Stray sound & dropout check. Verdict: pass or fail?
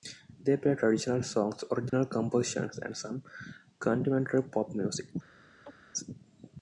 fail